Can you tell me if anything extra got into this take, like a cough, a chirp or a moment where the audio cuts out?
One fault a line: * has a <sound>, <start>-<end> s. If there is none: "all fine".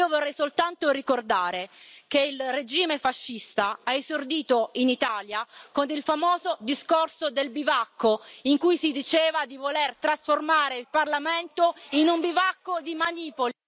all fine